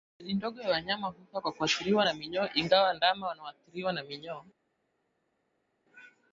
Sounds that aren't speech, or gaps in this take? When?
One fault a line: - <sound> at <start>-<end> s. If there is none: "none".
none